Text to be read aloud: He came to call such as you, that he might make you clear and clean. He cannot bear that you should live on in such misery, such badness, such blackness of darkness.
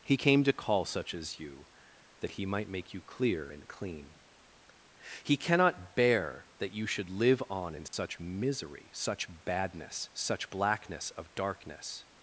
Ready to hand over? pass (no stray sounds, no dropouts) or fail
fail